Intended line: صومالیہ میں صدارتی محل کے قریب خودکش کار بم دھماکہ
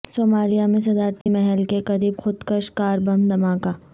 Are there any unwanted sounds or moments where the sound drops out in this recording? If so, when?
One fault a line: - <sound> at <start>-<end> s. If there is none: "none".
- dropout at 1.2-1.3 s